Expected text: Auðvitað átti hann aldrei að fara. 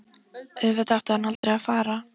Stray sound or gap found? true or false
true